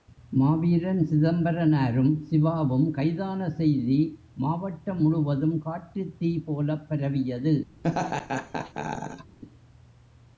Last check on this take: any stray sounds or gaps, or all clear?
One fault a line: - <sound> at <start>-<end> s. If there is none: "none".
- laugh at 7.8-9.4 s